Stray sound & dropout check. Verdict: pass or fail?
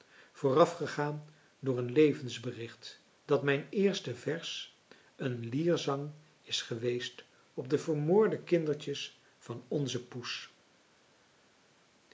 pass